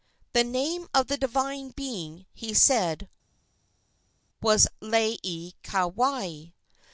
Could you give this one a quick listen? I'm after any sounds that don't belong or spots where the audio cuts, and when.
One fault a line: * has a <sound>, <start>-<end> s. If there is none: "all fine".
all fine